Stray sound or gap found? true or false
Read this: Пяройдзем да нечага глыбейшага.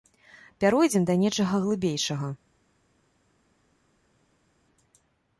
false